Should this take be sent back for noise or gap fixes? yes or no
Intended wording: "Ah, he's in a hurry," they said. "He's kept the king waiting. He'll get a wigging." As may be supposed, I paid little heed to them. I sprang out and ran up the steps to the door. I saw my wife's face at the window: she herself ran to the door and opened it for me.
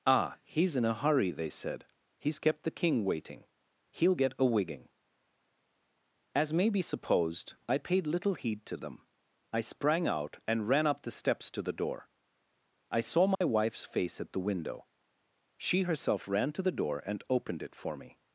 yes